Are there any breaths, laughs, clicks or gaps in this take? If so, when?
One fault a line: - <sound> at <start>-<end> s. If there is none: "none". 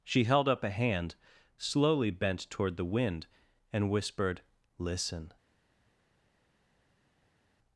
none